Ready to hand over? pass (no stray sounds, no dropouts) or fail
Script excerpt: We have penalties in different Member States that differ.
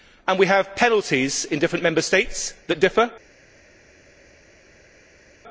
pass